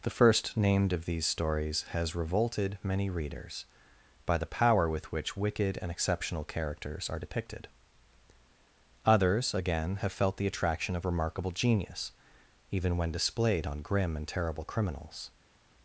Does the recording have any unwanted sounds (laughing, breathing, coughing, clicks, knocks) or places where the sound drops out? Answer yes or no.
no